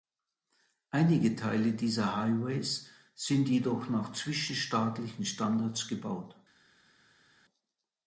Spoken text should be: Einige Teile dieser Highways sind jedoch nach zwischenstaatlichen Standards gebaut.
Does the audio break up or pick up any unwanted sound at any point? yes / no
no